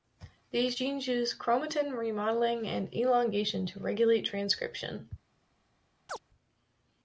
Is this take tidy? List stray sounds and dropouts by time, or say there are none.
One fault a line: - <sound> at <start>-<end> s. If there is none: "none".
- chirp at 6.1-6.2 s